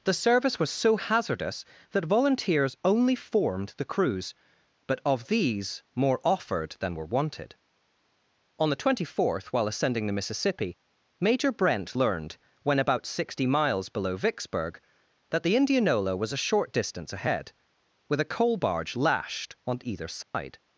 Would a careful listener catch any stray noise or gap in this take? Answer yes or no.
yes